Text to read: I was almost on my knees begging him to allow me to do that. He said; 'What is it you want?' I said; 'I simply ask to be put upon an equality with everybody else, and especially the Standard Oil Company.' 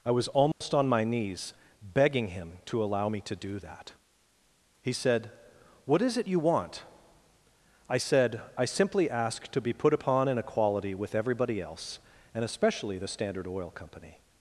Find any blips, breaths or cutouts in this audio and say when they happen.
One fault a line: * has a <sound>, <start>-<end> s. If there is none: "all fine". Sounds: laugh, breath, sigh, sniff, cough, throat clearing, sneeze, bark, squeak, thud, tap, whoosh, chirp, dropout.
* has a dropout, 0.5-0.6 s